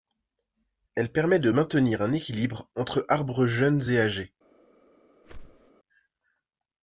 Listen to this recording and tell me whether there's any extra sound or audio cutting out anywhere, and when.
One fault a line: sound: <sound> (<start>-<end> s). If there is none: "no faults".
sound: whoosh (5.2-5.7 s)